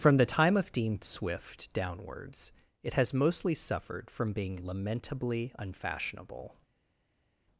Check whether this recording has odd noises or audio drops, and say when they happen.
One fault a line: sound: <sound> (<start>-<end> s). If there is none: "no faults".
no faults